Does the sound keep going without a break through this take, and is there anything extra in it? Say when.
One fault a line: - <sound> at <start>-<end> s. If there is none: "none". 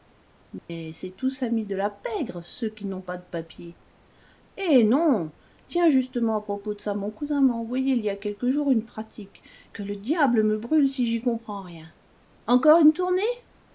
- dropout at 0.6-0.7 s